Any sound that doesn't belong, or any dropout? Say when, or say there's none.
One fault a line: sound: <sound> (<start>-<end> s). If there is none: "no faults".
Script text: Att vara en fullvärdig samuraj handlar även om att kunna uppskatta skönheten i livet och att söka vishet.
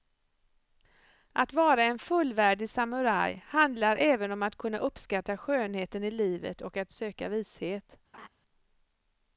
sound: laugh (8.1-8.3 s)